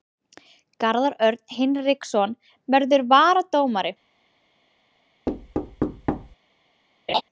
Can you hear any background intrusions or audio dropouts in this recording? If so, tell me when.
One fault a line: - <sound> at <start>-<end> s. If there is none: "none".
- thud at 5.3-6.4 s
- laugh at 7.1-7.2 s